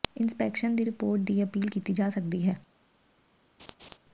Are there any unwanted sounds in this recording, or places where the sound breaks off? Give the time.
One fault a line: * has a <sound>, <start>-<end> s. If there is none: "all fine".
* has a laugh, 3.6-4.0 s